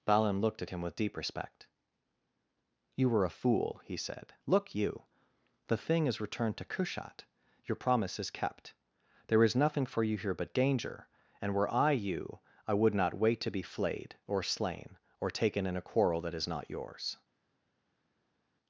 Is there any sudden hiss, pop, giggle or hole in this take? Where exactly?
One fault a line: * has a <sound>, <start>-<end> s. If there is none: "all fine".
all fine